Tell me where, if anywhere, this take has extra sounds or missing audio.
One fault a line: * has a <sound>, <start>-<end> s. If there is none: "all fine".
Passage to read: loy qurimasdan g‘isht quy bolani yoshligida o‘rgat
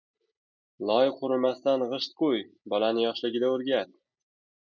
all fine